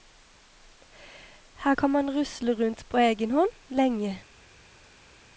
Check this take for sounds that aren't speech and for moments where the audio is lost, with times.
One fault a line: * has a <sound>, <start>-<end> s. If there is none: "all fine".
all fine